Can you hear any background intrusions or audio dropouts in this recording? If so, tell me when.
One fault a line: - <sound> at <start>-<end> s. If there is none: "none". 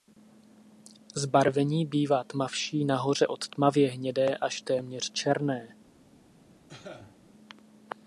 - cough at 6.7-7.2 s